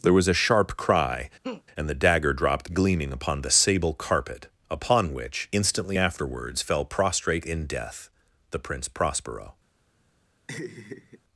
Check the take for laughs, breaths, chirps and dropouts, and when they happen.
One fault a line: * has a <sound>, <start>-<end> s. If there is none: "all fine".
* has a laugh, 1.4-1.6 s
* has a laugh, 10.5-11.2 s